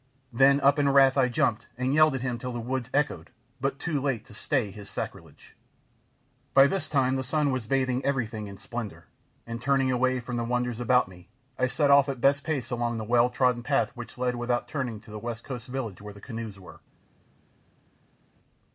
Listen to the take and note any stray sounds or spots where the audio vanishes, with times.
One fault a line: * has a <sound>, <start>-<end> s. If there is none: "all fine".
all fine